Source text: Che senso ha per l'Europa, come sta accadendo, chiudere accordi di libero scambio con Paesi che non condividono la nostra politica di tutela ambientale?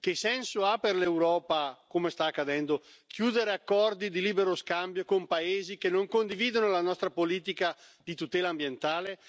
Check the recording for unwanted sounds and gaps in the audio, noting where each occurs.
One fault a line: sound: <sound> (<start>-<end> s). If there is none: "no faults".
no faults